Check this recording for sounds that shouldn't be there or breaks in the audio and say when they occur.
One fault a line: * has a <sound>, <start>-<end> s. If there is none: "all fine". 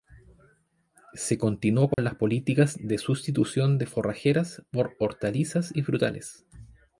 * has a dropout, 1.9-2.0 s